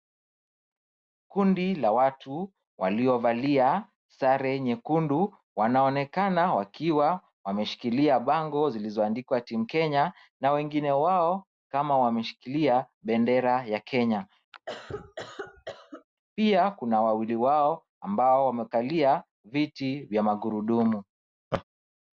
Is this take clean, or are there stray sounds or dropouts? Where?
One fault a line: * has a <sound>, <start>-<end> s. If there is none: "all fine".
* has a cough, 14.5-16.1 s
* has a laugh, 21.5-21.6 s